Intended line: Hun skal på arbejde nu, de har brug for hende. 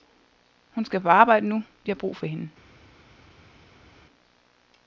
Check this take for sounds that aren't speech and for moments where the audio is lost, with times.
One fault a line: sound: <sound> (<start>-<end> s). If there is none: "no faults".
no faults